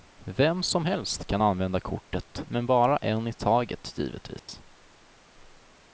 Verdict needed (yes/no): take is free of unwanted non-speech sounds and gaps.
no